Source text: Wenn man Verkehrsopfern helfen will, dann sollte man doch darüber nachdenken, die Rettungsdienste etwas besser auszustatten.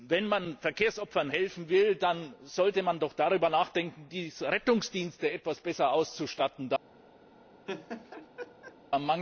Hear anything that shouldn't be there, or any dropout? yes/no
yes